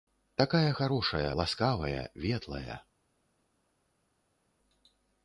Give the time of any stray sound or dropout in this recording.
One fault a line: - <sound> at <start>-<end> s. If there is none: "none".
none